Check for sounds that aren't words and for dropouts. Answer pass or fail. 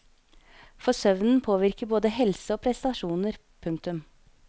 pass